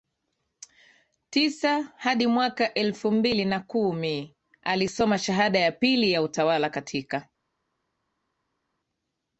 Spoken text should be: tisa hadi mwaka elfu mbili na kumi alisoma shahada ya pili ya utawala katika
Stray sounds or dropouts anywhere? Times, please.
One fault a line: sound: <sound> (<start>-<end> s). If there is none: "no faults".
no faults